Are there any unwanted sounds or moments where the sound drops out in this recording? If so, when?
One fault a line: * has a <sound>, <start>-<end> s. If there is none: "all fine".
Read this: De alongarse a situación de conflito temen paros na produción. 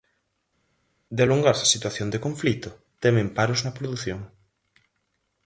all fine